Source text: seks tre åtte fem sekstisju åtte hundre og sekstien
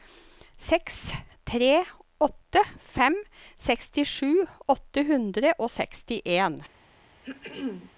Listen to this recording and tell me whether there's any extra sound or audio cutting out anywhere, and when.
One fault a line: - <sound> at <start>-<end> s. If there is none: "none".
- throat clearing at 7.2-7.9 s